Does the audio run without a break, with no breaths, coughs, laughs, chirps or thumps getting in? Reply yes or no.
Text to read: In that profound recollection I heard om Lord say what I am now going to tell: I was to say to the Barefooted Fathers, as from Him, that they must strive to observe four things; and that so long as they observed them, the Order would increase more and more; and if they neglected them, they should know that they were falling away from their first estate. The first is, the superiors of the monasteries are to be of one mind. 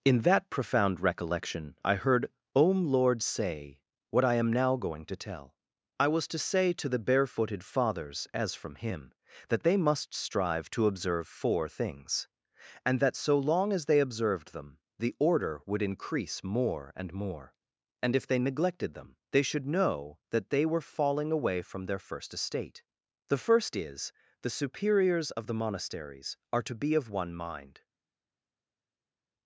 yes